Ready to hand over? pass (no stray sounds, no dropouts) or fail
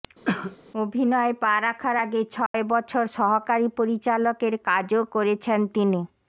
fail